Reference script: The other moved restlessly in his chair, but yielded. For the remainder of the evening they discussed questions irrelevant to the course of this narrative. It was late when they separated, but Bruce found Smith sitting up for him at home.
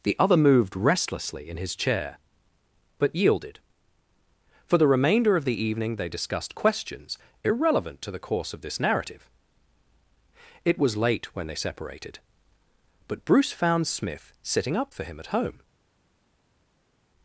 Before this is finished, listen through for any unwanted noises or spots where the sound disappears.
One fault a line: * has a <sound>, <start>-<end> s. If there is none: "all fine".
all fine